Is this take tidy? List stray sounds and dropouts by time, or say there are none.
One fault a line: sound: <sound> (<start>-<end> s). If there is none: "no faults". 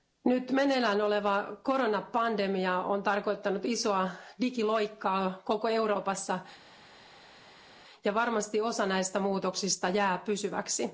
no faults